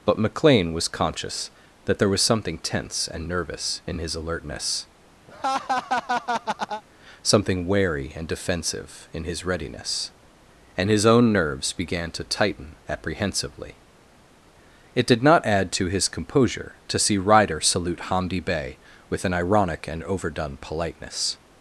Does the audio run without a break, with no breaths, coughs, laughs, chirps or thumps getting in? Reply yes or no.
no